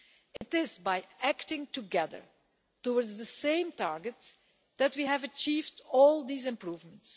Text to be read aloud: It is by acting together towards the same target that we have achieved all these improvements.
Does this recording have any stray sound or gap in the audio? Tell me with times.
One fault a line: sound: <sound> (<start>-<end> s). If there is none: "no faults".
sound: dropout (0.4-0.4 s)